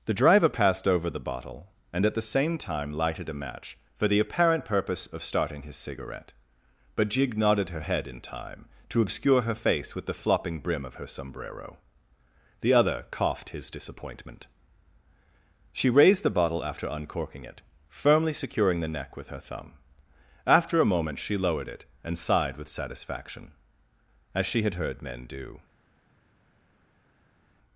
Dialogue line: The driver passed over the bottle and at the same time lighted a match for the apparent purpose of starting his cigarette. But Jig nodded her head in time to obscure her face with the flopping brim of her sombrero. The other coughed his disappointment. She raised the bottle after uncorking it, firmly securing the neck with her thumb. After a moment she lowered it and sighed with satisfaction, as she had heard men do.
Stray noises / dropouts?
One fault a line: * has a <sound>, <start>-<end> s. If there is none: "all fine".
all fine